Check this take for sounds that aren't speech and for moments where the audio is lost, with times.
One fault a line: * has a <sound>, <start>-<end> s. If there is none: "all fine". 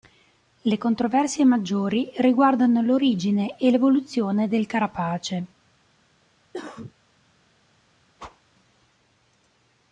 * has a cough, 6.5-6.9 s
* has a whoosh, 8.2-8.4 s